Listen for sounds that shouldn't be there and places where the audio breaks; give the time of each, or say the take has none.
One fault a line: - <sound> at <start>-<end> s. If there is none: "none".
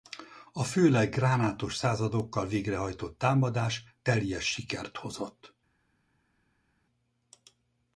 none